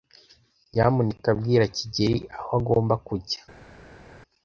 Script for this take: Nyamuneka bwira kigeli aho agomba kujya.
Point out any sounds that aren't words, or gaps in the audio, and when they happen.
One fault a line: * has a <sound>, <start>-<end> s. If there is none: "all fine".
all fine